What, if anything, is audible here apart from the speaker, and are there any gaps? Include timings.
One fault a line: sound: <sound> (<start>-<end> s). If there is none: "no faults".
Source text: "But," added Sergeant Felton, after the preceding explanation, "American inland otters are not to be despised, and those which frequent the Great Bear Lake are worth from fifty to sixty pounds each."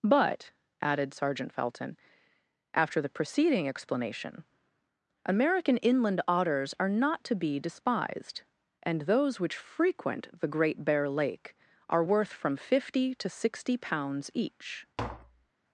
sound: tap (15.0-15.5 s)